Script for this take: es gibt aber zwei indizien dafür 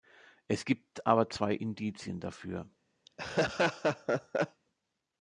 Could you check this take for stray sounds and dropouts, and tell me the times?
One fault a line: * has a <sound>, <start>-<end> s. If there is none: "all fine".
* has a laugh, 3.1-4.6 s